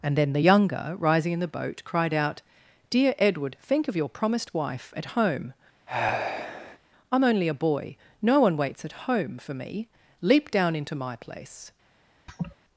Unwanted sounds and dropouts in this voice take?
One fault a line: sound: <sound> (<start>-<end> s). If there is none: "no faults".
sound: sigh (5.9-6.8 s)
sound: laugh (12.3-12.6 s)